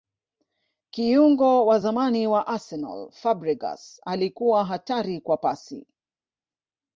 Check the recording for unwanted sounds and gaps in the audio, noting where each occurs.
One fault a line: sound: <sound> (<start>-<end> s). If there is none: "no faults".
no faults